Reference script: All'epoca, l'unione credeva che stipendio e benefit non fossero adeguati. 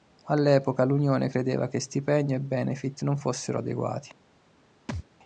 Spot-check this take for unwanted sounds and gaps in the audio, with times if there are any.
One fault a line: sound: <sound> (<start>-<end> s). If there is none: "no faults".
sound: thud (4.9-5.0 s)